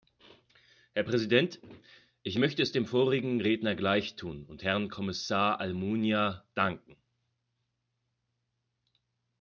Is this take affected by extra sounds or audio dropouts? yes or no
no